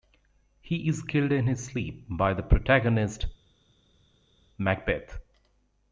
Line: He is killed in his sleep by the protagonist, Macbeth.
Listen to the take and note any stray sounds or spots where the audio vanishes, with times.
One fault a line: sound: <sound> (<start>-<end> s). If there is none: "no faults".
no faults